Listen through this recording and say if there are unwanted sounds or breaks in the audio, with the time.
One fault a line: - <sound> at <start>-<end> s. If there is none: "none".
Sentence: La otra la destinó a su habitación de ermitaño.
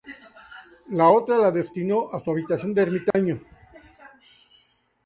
- dropout at 3.1-3.1 s